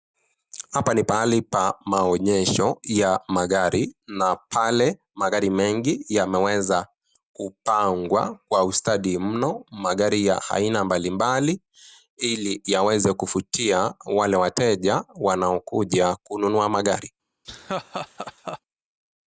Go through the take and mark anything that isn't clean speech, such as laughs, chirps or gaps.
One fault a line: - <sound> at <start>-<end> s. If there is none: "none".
- laugh at 17.4-18.6 s